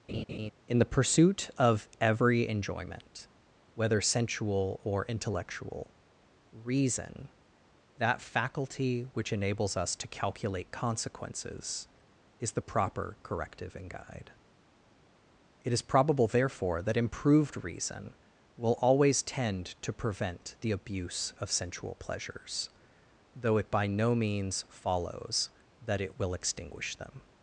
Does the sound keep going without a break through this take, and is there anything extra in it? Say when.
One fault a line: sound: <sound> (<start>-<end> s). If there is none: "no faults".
sound: laugh (0.1-0.5 s)